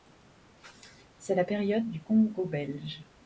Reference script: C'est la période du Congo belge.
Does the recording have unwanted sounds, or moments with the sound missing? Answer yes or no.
no